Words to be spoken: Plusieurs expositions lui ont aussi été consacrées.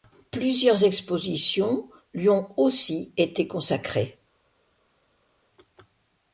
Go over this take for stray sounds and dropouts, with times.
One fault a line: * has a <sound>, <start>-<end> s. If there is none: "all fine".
all fine